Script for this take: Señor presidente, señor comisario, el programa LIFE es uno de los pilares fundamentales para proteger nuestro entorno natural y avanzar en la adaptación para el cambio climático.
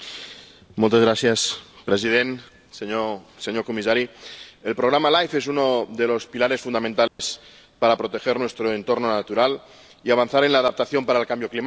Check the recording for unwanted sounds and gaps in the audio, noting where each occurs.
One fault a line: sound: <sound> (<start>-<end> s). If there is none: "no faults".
sound: dropout (7.1-7.2 s)